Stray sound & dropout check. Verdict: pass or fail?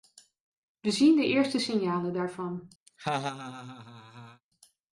fail